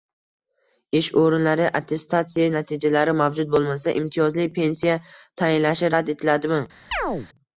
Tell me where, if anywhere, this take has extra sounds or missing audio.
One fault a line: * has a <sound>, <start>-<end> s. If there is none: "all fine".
* has a chirp, 6.9-7.3 s